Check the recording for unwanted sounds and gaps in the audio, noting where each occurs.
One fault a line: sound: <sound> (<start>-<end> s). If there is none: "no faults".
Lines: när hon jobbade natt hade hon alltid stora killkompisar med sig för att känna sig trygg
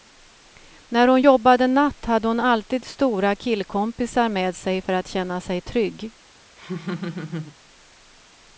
sound: laugh (6.6-7.6 s)